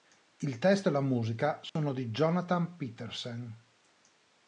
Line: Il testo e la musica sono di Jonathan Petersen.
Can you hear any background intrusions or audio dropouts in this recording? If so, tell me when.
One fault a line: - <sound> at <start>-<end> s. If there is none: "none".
- dropout at 1.7-1.8 s